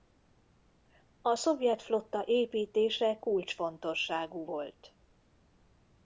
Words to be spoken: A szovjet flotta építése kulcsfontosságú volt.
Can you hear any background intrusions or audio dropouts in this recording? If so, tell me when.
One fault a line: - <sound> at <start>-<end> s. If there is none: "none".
none